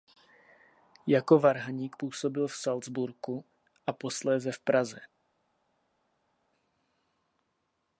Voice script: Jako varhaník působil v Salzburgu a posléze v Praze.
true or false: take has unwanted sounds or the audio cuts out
false